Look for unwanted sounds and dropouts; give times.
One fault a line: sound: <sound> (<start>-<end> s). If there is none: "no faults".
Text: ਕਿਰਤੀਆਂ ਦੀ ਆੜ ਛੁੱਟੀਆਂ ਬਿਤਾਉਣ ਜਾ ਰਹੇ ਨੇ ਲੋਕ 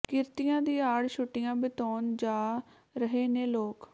no faults